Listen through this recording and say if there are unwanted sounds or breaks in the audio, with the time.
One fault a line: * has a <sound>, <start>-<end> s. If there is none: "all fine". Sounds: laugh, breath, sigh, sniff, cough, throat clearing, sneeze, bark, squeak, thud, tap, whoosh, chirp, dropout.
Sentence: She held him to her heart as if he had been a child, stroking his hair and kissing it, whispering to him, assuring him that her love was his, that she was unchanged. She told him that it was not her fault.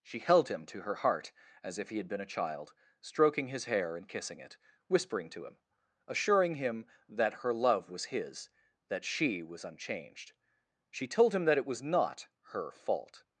all fine